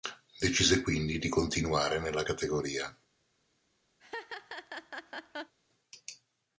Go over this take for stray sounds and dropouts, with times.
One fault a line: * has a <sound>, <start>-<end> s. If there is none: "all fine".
* has a laugh, 4.0-5.5 s